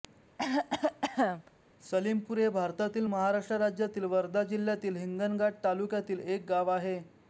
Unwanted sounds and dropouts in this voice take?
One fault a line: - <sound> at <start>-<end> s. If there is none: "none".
- cough at 0.4-1.5 s